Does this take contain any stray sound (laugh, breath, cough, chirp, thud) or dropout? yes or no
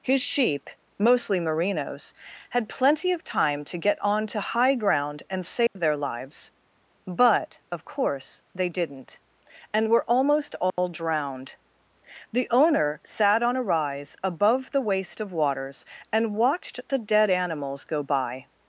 yes